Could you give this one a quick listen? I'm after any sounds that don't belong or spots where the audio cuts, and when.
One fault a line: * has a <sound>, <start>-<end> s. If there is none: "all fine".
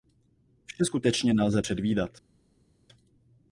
all fine